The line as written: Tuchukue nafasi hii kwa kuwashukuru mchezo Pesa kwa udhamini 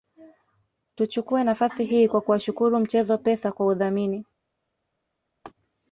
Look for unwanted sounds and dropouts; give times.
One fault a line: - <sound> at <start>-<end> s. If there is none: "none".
- laugh at 5.4-5.5 s